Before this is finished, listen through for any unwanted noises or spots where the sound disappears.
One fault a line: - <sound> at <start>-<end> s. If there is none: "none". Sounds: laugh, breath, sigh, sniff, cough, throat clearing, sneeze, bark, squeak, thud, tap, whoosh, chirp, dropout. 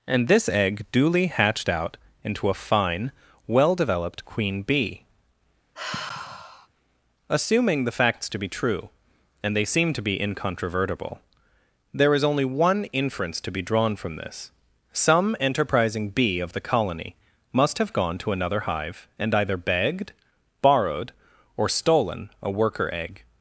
- sigh at 5.7-6.7 s